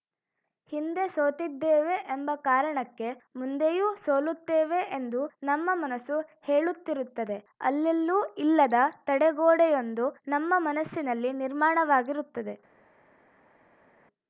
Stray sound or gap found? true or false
false